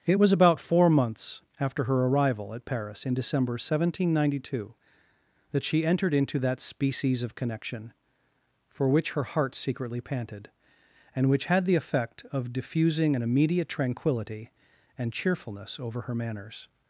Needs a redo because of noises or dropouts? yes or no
no